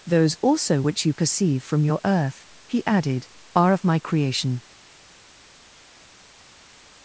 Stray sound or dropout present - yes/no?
no